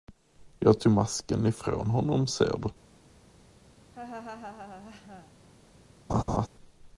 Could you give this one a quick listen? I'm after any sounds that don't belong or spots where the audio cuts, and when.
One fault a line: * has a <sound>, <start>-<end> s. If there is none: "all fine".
* has a laugh, 3.9-5.3 s
* has a laugh, 6.1-6.5 s